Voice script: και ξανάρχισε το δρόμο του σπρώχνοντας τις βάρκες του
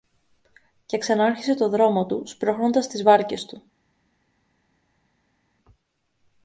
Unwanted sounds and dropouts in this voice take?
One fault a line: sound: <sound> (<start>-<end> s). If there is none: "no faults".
no faults